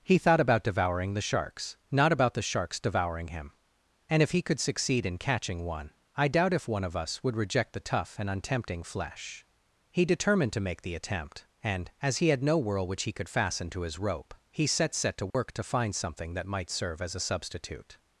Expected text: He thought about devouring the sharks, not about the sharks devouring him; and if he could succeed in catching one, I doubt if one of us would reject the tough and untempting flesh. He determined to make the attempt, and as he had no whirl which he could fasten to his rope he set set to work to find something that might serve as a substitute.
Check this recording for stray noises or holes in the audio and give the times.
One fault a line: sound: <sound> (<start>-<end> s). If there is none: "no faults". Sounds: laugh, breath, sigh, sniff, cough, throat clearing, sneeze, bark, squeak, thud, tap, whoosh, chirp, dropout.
sound: dropout (15.3-15.3 s)